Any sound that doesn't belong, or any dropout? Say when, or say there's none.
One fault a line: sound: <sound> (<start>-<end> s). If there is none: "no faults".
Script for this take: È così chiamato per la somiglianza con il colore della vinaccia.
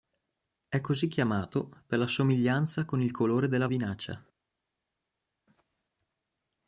no faults